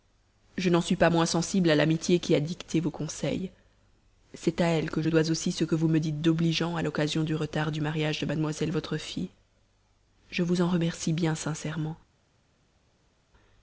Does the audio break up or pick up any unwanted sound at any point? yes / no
no